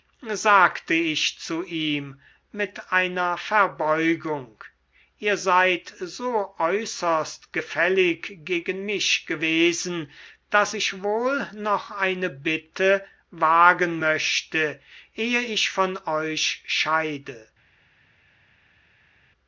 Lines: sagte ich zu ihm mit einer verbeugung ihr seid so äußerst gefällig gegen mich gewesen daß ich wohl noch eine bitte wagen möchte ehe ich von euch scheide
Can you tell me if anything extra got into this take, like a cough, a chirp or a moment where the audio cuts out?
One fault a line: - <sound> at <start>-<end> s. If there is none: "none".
none